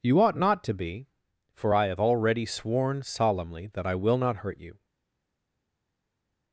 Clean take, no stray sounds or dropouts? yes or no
yes